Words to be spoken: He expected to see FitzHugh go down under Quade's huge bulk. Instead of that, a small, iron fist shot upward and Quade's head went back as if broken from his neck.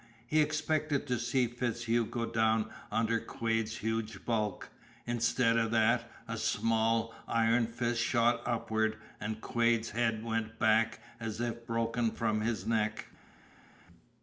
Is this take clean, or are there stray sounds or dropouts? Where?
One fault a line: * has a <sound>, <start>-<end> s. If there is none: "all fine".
all fine